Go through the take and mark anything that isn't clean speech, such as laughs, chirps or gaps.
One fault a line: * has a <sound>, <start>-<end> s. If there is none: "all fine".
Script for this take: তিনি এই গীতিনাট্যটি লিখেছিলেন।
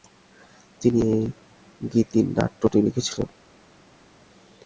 all fine